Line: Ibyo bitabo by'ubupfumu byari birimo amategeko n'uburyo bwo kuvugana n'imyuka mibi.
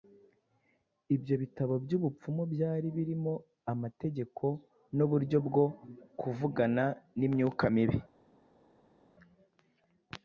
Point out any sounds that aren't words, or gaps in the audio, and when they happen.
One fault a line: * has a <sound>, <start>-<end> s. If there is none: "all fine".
all fine